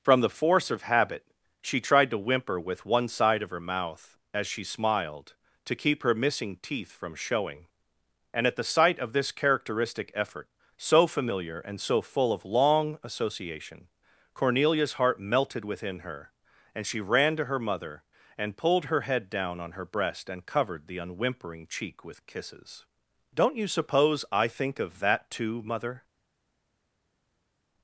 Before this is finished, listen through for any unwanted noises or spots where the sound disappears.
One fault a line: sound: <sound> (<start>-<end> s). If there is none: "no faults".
no faults